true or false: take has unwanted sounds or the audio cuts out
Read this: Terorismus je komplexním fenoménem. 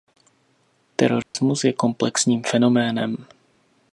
true